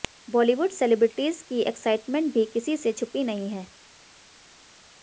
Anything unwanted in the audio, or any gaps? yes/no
no